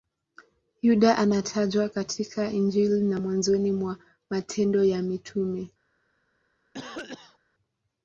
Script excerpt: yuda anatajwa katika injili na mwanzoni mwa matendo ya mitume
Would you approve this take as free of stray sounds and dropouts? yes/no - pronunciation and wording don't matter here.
no